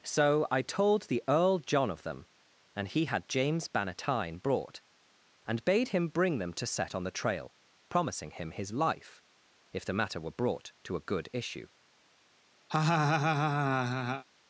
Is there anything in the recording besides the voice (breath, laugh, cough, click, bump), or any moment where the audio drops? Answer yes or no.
yes